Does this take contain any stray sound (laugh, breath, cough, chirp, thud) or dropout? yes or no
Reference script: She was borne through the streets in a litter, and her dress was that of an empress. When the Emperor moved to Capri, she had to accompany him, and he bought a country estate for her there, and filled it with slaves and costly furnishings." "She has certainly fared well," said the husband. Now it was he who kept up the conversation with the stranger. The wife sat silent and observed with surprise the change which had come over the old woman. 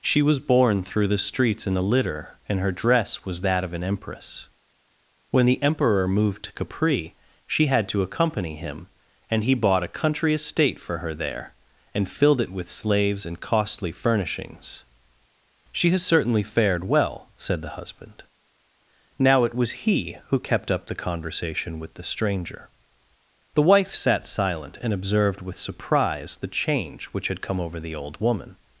no